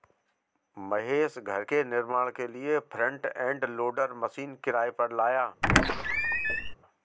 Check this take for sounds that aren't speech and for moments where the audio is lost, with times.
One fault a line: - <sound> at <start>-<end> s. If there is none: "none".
- squeak at 5.6-6.7 s